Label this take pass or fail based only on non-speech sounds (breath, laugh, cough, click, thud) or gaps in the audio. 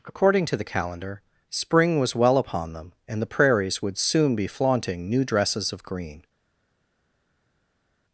pass